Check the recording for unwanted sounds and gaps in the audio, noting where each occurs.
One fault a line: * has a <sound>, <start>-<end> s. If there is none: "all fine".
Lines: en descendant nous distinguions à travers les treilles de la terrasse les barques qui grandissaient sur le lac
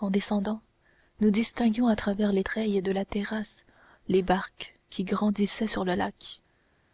all fine